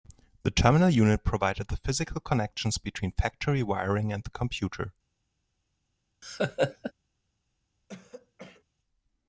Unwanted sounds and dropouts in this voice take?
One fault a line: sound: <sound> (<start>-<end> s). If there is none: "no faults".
sound: laugh (6.2-6.9 s)
sound: throat clearing (7.9-8.6 s)